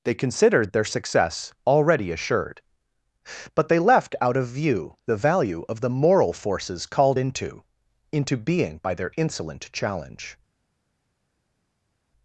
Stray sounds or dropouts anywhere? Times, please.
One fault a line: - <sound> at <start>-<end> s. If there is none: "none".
none